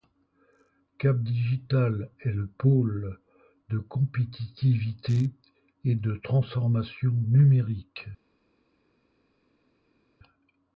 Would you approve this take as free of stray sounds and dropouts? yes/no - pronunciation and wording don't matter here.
yes